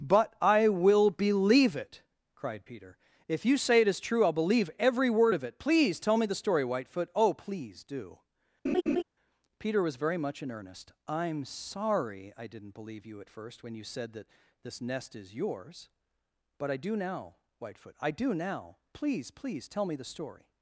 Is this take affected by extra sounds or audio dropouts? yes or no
yes